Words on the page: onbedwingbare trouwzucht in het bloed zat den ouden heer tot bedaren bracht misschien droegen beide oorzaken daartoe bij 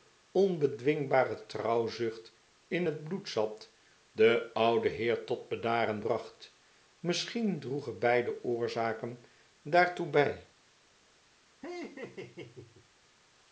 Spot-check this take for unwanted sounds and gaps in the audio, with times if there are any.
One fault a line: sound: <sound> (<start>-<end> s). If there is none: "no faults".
sound: laugh (11.6-12.9 s)